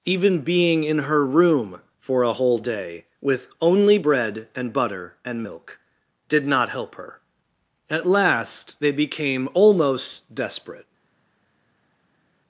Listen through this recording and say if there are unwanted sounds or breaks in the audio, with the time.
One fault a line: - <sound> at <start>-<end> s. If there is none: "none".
none